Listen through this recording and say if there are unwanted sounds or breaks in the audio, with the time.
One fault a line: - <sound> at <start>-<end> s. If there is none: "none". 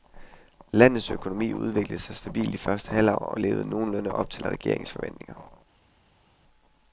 none